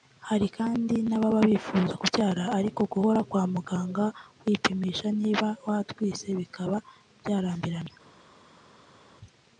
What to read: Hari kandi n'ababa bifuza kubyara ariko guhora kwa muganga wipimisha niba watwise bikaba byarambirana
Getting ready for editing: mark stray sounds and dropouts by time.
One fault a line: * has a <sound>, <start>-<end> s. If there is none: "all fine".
all fine